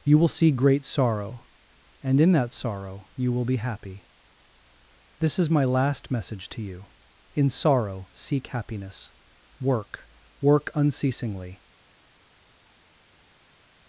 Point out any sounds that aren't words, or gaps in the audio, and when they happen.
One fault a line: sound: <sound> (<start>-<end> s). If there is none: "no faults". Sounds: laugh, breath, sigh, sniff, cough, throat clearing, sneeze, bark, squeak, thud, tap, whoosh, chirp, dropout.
no faults